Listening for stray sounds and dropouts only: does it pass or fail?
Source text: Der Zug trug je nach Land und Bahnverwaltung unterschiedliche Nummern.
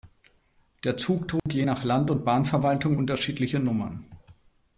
fail